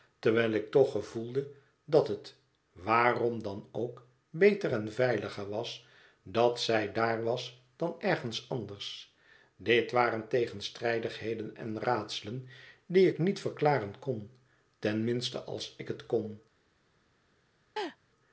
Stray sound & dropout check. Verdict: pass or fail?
fail